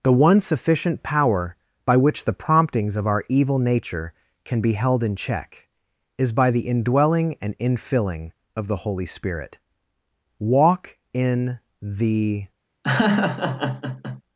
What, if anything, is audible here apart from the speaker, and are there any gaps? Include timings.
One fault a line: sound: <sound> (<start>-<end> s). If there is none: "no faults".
sound: laugh (12.8-14.2 s)